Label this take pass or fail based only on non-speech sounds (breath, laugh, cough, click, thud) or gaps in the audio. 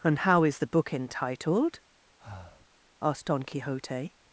fail